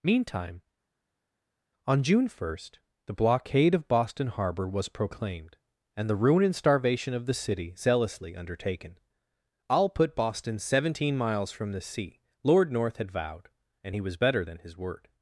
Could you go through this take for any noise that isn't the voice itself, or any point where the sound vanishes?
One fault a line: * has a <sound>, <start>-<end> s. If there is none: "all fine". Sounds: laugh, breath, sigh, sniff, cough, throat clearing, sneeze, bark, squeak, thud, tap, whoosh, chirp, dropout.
all fine